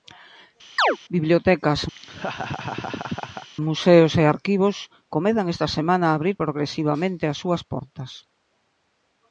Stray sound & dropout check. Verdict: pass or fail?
fail